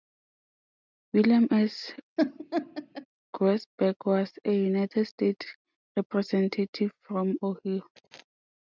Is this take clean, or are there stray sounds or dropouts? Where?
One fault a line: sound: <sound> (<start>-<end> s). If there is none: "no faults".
sound: laugh (2.2-3.1 s)